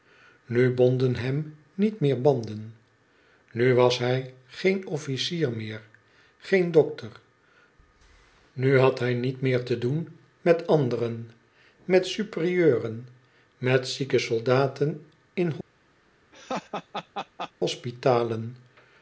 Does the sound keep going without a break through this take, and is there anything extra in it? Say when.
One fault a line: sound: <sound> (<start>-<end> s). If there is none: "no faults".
sound: laugh (16.3-17.5 s)